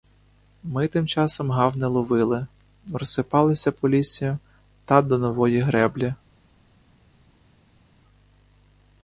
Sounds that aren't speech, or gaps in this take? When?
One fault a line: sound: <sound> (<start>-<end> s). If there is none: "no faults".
no faults